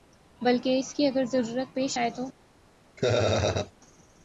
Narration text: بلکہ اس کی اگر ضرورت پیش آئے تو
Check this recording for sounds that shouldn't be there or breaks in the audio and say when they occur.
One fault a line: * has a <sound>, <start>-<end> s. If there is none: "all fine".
* has a laugh, 3.0-3.7 s